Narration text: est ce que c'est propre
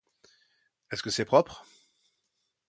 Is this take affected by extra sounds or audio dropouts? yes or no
no